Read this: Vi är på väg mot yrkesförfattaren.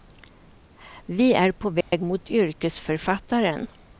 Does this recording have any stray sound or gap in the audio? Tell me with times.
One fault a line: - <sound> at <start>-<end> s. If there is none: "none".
- dropout at 1.8-1.9 s